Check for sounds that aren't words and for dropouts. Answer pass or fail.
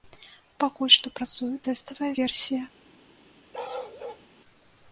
fail